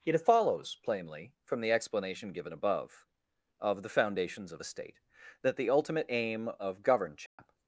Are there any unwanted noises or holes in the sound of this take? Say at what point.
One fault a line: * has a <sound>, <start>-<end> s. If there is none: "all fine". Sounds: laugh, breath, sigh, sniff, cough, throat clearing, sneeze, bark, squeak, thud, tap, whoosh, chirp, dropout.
* has a dropout, 7.3-7.4 s